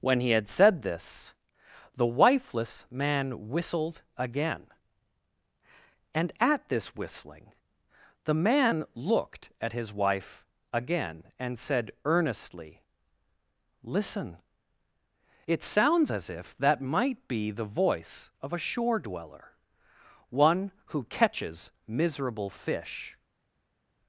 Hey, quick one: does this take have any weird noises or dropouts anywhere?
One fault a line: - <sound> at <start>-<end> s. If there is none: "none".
none